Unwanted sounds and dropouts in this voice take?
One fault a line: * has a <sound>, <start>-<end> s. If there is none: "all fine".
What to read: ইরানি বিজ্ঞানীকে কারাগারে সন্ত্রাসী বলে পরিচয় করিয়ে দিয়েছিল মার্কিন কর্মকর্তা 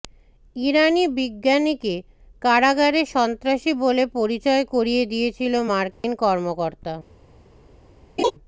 * has a dropout, 5.9-6.0 s
* has a laugh, 8.2-8.3 s